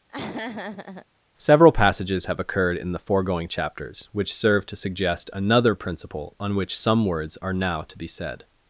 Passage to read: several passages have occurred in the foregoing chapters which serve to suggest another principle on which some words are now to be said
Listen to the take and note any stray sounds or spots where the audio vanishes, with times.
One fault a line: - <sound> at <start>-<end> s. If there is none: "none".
- laugh at 0.1-1.1 s